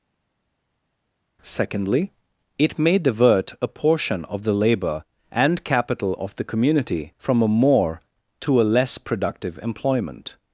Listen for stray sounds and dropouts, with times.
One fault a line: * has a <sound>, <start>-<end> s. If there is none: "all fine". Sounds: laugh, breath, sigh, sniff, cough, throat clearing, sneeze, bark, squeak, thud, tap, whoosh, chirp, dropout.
all fine